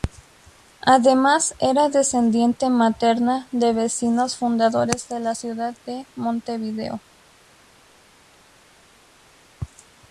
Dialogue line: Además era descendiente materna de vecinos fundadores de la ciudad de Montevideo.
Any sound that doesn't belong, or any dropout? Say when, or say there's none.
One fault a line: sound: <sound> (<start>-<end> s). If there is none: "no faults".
no faults